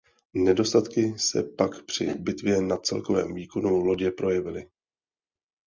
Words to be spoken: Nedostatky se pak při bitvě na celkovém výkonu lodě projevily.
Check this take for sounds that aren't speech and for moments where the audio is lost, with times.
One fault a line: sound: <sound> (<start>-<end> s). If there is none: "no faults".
no faults